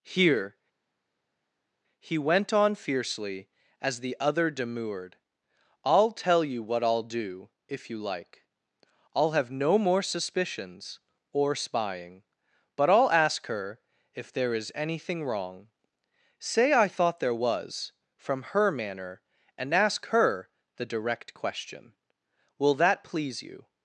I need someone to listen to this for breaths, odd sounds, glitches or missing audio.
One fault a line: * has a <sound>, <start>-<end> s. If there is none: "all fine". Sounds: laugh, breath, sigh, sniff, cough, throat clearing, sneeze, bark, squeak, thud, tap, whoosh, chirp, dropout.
all fine